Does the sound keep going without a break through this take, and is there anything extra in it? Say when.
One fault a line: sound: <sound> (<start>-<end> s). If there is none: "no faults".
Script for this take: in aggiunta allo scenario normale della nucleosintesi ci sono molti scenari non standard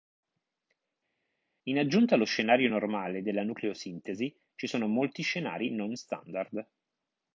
no faults